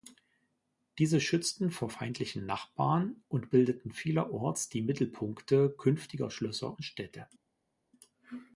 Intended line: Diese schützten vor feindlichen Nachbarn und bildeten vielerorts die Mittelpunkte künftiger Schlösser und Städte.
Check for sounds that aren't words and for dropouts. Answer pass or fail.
pass